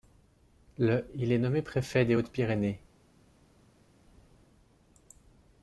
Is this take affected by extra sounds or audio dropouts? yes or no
no